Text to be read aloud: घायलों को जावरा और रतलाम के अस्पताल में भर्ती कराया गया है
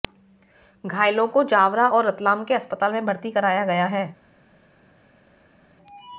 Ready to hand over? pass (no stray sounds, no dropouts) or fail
pass